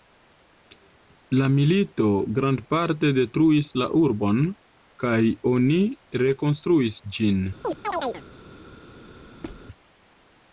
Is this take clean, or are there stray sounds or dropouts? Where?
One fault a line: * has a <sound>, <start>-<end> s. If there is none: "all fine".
* has a chirp, 7.6-8.2 s
* has a squeak, 9.4-9.7 s